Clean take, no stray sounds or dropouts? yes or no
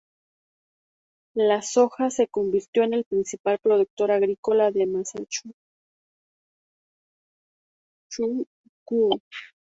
yes